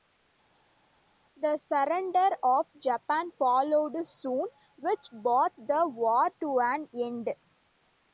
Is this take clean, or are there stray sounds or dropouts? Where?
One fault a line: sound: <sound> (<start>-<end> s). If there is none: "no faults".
no faults